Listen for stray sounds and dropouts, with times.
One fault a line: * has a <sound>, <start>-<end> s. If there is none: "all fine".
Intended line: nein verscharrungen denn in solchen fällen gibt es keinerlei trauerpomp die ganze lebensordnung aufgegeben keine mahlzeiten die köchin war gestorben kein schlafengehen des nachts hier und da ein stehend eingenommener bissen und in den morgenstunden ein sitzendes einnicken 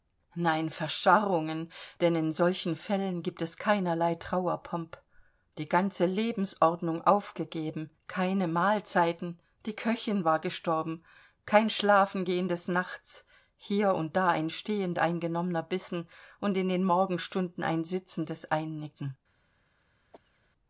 * has a cough, 20.1-20.5 s